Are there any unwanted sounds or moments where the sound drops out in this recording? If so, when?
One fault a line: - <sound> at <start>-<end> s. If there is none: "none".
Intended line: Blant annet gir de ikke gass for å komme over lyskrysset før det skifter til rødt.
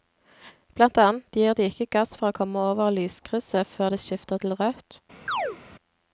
- chirp at 5.3-5.6 s